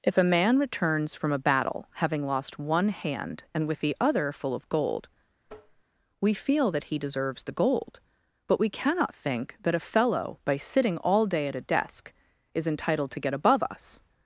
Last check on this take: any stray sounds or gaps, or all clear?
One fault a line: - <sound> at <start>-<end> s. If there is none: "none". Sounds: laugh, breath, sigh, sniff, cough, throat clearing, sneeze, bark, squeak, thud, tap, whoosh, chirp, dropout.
- tap at 5.5-5.8 s